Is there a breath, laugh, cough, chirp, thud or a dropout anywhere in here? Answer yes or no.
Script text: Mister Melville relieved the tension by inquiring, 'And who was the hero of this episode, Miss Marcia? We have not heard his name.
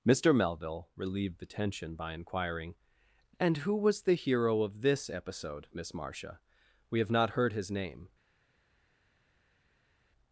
no